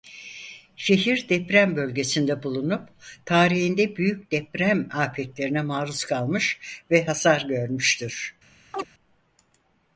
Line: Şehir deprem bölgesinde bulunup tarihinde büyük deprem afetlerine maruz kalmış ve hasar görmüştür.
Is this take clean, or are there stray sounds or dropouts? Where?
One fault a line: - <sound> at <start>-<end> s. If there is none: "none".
- chirp at 8.7-8.9 s